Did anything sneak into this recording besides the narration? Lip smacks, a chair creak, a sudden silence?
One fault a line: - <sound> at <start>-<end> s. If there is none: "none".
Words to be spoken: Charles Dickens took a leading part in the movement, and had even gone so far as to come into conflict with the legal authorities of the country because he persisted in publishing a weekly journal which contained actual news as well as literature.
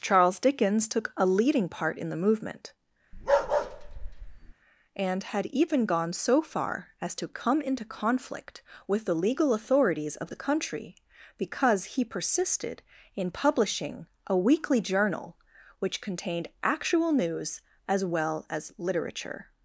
- bark at 3.1-4.5 s